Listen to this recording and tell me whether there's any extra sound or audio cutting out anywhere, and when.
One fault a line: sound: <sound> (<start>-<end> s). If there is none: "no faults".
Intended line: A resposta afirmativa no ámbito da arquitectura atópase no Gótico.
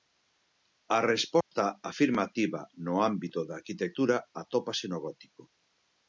sound: dropout (1.4-1.5 s)